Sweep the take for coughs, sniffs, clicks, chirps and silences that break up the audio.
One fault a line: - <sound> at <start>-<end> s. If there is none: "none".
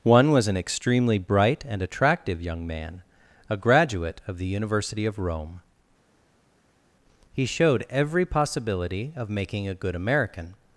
none